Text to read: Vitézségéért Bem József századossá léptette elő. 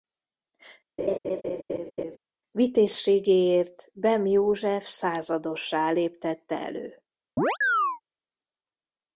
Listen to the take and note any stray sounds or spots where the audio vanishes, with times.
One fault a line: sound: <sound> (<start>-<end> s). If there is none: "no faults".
sound: laugh (1.0-2.2 s)
sound: chirp (7.4-8.0 s)